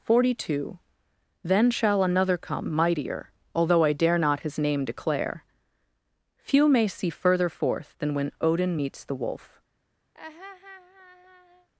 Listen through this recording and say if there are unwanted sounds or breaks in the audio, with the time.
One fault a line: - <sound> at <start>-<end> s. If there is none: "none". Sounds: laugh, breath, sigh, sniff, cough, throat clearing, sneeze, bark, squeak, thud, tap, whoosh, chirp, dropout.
- laugh at 10.1-11.7 s